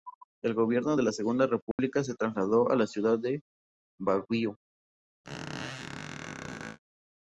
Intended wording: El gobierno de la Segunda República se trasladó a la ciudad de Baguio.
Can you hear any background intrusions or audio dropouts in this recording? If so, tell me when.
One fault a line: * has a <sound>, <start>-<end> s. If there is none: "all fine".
* has a dropout, 1.7-1.8 s
* has a squeak, 5.2-6.8 s